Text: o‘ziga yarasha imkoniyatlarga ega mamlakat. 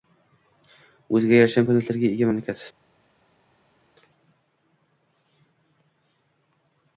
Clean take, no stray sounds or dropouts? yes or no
yes